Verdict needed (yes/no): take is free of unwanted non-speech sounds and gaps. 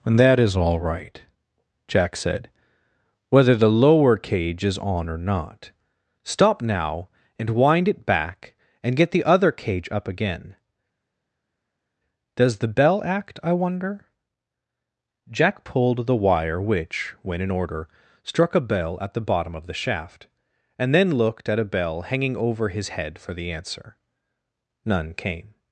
yes